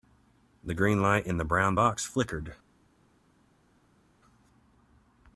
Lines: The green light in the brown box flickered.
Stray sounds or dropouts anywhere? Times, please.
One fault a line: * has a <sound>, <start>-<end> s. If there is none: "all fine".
all fine